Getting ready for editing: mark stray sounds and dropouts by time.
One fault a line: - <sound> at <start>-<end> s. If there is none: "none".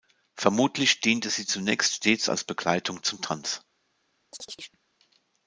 - chirp at 4.3-4.8 s